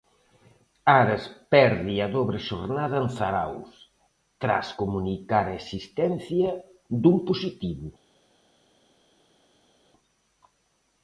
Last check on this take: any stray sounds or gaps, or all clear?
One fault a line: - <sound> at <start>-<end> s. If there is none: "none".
none